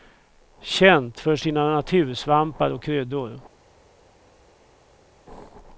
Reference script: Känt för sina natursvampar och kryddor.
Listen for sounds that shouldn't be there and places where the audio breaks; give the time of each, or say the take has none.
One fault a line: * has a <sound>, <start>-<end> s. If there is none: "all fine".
all fine